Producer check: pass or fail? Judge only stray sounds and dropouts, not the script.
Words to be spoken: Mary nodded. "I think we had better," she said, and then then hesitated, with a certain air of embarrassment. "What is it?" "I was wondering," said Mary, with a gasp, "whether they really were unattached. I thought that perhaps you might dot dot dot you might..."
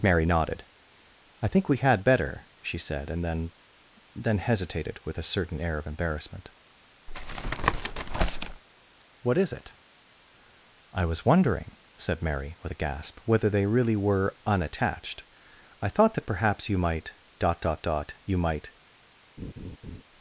fail